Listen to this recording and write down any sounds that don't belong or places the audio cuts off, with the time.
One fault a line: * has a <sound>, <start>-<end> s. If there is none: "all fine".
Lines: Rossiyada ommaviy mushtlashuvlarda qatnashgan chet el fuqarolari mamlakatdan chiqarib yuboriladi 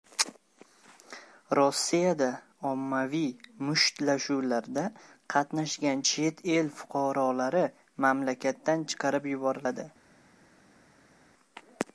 all fine